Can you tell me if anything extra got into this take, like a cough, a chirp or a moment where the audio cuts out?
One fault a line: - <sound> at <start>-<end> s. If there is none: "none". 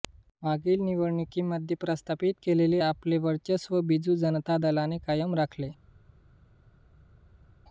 none